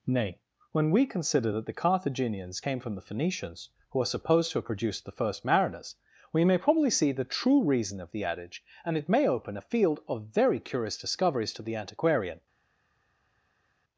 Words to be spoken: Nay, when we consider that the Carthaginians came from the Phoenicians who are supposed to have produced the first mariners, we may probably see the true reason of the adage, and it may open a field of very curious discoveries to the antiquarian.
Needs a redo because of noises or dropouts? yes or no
no